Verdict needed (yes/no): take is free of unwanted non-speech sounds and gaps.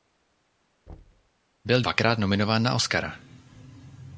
no